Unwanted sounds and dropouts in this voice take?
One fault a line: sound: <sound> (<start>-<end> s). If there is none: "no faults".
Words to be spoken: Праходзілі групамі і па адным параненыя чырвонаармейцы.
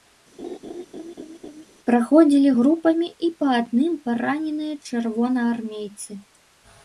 sound: laugh (0.4-1.7 s)